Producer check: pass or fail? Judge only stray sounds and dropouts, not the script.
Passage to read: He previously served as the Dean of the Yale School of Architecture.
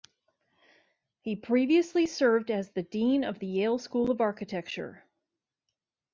pass